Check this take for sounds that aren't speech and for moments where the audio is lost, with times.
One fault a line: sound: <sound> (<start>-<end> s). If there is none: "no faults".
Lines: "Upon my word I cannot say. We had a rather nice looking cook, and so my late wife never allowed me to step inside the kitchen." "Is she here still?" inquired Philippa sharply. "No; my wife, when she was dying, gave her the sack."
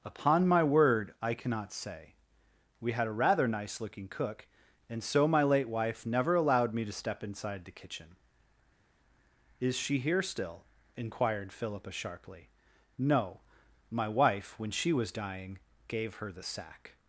no faults